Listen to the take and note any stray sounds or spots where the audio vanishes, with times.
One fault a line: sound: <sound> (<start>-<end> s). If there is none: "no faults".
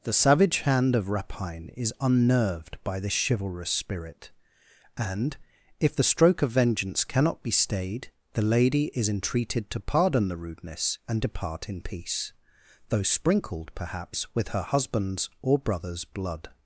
no faults